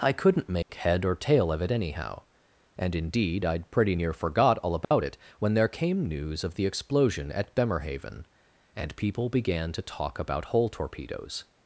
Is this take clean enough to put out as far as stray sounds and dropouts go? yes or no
no